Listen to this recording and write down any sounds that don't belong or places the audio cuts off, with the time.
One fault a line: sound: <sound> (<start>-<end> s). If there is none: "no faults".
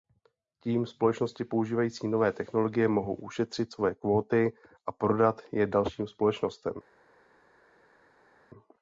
no faults